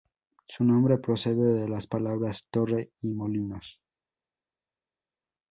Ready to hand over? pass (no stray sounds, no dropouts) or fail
pass